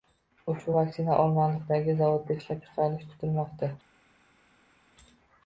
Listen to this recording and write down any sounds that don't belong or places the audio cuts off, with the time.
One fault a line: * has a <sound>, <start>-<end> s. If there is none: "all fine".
all fine